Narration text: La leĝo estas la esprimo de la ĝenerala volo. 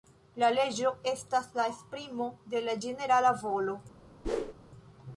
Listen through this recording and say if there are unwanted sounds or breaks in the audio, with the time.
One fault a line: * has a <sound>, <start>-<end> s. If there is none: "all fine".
* has a whoosh, 4.2-4.5 s